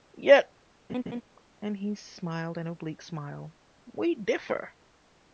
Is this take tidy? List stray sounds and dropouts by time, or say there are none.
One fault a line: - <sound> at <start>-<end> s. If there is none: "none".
- laugh at 0.9-1.2 s